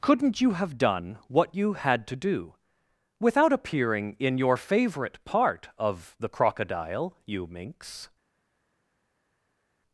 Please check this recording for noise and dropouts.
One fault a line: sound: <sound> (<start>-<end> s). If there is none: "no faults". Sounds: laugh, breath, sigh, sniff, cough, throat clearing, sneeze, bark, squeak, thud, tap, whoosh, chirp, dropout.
no faults